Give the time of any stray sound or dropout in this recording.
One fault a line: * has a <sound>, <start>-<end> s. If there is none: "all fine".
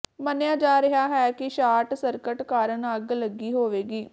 all fine